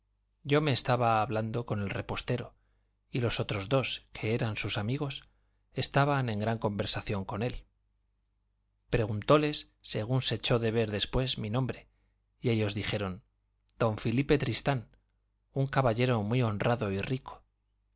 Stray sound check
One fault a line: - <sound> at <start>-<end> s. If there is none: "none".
none